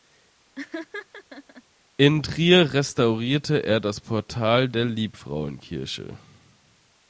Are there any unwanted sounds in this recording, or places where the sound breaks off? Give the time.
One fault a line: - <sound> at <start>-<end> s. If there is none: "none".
- laugh at 0.5-1.6 s